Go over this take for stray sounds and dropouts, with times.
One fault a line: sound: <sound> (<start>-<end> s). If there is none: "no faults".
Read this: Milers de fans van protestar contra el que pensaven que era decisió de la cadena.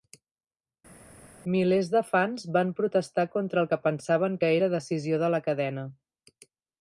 no faults